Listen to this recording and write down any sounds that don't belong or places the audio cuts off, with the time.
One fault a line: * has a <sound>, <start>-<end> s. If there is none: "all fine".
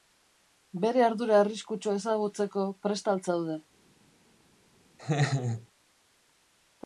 * has a laugh, 5.0-5.7 s